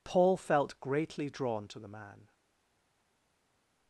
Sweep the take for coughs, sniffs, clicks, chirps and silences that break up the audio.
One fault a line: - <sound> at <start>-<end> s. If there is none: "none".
none